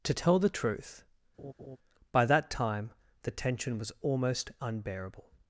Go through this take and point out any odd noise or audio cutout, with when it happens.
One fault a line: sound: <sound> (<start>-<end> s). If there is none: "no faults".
sound: laugh (1.4-1.8 s)